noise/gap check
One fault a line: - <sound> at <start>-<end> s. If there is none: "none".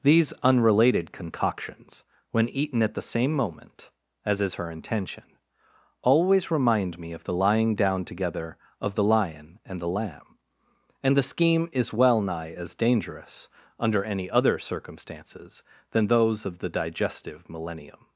none